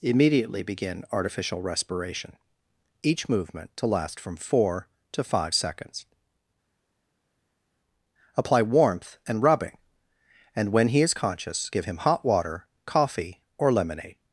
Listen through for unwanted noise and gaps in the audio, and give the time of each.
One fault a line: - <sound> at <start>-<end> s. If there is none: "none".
none